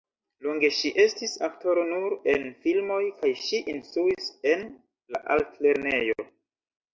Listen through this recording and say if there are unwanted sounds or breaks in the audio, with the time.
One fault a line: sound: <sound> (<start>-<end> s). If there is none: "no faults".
no faults